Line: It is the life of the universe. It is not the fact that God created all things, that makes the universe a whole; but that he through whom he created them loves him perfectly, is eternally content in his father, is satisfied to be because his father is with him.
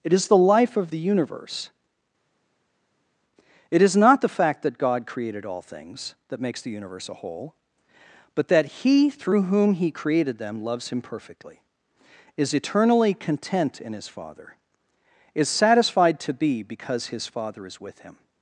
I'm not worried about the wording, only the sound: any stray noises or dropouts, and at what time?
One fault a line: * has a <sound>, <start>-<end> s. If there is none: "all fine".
all fine